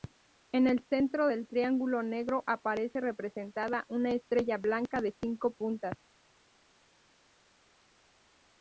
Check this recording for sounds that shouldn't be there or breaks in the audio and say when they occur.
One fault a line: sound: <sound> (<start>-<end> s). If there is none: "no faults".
no faults